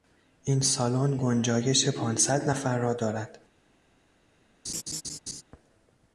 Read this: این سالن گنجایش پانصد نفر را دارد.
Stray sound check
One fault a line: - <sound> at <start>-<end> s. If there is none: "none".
- laugh at 4.6-5.4 s